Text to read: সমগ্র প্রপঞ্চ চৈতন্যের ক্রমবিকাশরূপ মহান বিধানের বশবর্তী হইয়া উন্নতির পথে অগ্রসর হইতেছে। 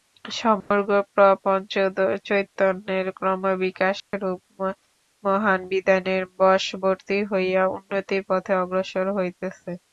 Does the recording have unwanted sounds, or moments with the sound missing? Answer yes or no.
yes